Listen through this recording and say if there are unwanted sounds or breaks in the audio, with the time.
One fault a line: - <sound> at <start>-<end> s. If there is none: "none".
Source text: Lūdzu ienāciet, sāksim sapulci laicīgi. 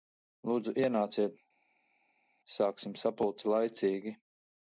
none